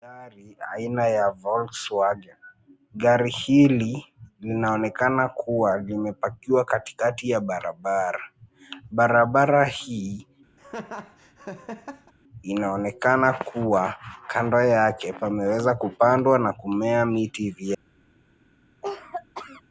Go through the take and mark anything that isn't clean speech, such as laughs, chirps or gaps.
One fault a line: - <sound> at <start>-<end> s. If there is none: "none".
- laugh at 10.6-12.1 s
- cough at 18.8-19.6 s